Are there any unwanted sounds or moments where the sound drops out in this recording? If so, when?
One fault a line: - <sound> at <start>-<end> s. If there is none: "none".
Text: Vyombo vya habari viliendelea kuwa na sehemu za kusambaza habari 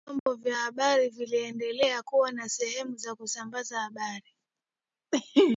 - dropout at 0.2-0.3 s